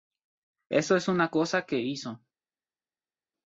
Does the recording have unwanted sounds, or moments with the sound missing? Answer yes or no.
no